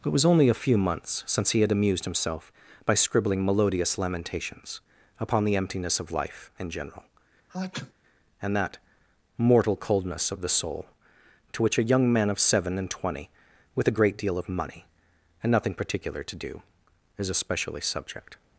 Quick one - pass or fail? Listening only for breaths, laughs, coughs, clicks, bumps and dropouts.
fail